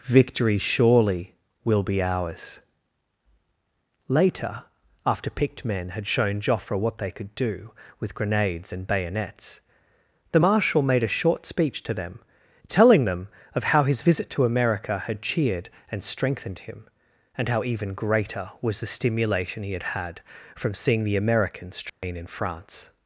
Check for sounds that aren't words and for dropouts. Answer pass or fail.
fail